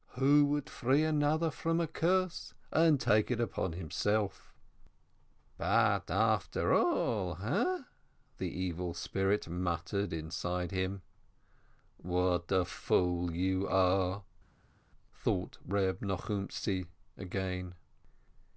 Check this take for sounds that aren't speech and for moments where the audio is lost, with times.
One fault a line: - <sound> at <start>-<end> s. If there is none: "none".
none